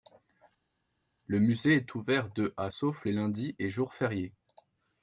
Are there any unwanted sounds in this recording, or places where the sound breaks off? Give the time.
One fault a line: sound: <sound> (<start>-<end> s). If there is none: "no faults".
no faults